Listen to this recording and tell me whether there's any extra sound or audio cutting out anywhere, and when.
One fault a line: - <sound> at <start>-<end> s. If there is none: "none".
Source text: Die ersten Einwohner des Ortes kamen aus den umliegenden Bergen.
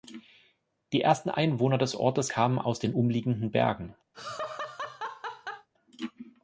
- laugh at 4.1-5.7 s